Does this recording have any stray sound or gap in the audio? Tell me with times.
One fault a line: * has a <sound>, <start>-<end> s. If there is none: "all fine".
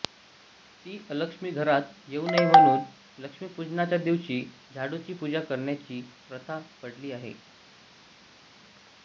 all fine